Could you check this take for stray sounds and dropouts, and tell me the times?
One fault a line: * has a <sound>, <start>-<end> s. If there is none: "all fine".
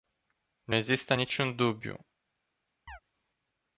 * has a chirp, 2.9-3.0 s